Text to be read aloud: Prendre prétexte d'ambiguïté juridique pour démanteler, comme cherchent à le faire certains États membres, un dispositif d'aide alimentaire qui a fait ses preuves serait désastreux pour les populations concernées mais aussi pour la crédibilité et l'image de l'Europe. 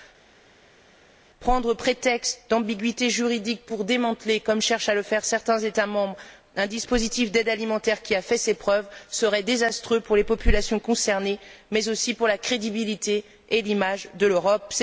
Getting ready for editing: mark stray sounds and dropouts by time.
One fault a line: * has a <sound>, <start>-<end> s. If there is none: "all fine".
all fine